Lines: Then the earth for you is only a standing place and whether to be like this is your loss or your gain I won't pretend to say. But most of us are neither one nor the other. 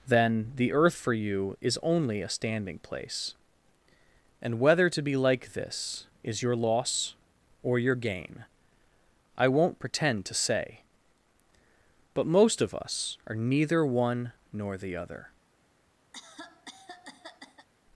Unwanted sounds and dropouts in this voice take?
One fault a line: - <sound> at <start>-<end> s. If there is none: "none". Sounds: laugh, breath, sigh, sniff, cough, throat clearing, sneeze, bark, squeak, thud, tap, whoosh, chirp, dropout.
- cough at 16.1-17.7 s